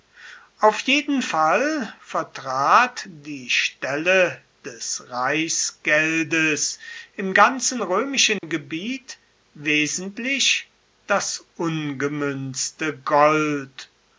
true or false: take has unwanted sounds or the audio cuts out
true